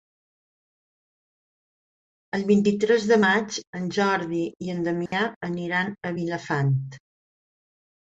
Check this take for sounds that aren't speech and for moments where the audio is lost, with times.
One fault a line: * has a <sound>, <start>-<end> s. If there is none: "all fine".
* has a dropout, 5.1-5.1 s